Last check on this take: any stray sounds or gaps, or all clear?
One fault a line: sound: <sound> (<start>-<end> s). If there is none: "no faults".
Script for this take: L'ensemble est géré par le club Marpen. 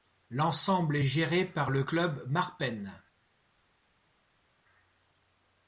no faults